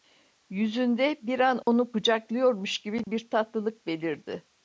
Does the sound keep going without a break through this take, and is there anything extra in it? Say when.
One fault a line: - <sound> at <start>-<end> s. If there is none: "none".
- dropout at 1.6-1.7 s
- dropout at 3.0-3.1 s